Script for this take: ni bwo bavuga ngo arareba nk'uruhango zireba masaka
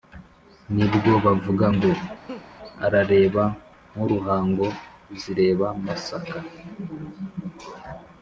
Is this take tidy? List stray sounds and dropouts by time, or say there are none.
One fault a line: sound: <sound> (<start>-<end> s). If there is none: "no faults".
sound: laugh (2.3-2.5 s)